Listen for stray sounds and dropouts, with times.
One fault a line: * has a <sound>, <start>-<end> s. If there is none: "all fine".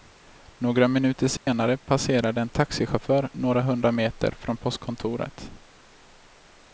* has a dropout, 1.4-1.5 s